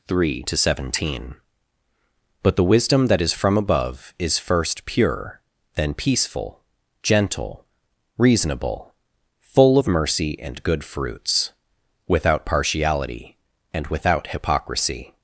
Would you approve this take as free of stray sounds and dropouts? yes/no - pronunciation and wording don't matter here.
yes